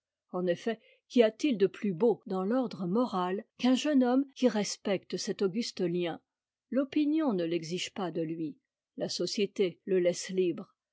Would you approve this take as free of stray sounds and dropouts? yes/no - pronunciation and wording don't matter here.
yes